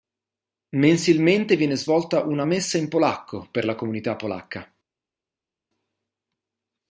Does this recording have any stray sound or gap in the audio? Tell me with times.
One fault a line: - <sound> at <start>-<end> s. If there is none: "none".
none